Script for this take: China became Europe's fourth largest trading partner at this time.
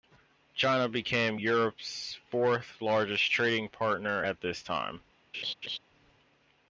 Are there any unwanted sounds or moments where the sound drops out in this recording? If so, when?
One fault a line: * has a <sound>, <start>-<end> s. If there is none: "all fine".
* has a laugh, 5.3-5.8 s